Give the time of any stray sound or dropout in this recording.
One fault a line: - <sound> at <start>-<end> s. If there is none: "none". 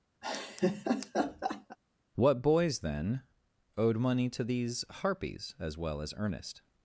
- laugh at 0.2-1.8 s